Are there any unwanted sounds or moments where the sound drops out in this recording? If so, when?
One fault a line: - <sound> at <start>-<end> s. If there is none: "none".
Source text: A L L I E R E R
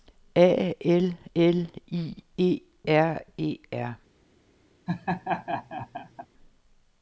- laugh at 4.9-6.3 s